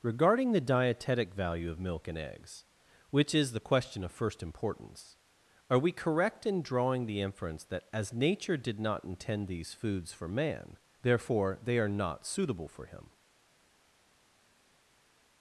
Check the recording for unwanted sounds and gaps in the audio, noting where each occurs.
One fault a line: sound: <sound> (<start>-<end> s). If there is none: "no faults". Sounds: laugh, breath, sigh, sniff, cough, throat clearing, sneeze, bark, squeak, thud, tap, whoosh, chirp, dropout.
no faults